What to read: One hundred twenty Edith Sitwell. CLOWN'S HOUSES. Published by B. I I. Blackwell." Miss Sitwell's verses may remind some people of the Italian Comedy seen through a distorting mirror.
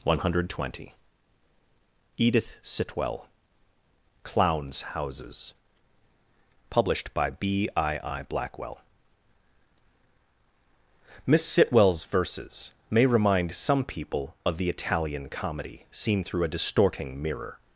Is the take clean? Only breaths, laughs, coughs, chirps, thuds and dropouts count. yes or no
yes